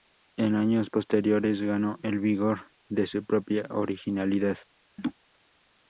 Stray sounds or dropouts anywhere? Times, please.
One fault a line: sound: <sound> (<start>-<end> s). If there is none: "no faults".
sound: laugh (5.0-5.1 s)